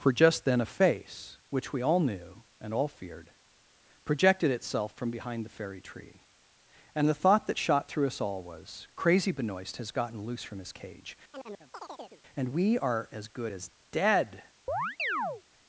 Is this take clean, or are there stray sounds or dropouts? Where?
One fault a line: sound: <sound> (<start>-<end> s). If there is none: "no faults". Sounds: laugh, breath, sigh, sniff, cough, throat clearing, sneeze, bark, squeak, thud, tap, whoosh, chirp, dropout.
sound: chirp (11.3-12.2 s)
sound: chirp (14.7-15.4 s)